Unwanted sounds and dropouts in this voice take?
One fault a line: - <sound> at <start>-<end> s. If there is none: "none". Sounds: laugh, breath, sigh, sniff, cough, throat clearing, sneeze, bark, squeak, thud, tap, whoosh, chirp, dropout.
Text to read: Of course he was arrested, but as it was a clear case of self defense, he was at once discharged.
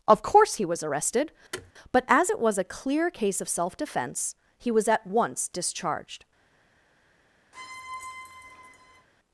- thud at 1.5-1.7 s
- squeak at 7.5-9.1 s